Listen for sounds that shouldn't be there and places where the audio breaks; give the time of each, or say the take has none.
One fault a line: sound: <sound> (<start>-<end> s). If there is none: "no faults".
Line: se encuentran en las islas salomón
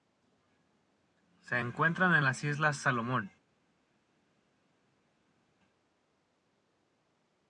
no faults